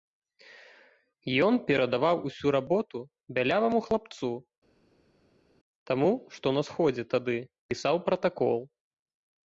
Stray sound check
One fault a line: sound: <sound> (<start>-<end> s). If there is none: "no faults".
no faults